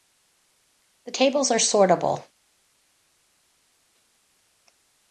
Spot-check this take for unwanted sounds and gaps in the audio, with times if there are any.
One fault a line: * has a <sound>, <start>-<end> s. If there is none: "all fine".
all fine